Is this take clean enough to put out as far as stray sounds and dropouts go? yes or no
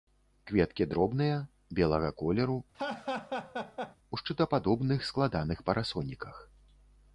no